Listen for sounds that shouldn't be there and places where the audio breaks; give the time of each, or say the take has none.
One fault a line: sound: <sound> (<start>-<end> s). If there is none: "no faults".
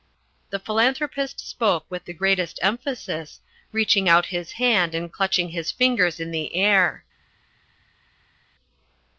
no faults